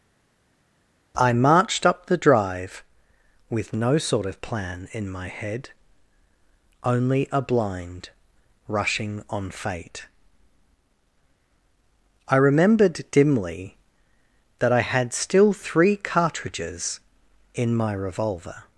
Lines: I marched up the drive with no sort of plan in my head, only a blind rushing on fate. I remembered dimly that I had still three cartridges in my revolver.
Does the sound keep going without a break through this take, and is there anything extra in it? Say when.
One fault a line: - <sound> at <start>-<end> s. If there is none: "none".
none